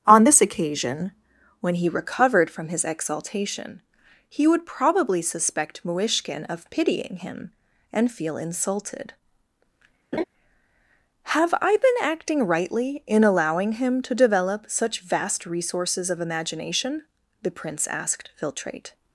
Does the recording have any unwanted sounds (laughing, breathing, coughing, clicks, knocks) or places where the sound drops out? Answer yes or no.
yes